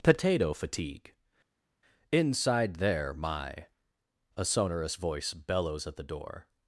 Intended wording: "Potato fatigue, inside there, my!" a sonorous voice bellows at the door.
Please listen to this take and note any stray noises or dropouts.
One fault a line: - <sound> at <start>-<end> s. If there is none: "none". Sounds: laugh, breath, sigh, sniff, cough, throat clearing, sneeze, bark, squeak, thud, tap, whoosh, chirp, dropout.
none